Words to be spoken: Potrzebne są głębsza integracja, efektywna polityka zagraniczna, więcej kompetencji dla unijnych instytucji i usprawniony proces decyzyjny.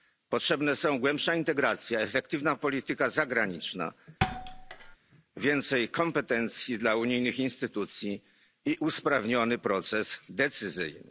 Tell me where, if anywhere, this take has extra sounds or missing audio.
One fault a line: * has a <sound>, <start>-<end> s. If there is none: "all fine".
* has a thud, 4.2-5.0 s